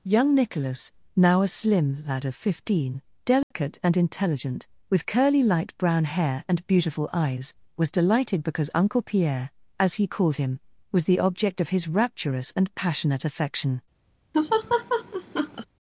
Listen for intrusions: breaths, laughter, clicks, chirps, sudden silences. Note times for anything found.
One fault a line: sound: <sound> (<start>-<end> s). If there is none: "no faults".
sound: dropout (3.4-3.5 s)
sound: laugh (14.3-15.7 s)